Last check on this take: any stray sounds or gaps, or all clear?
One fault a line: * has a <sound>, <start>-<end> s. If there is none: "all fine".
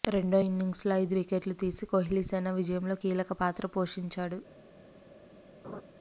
* has a laugh, 5.6-5.8 s